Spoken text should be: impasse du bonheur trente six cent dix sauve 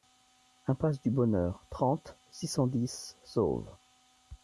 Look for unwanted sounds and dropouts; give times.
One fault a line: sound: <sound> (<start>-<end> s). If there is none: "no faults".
no faults